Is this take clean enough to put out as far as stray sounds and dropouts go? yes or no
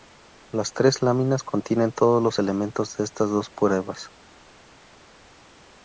yes